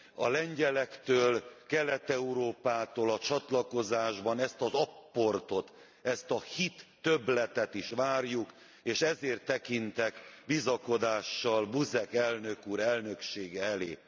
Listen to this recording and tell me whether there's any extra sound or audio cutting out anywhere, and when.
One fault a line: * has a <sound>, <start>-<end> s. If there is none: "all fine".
all fine